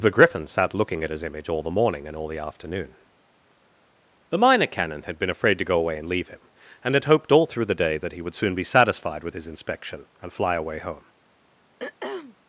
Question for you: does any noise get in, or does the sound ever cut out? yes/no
yes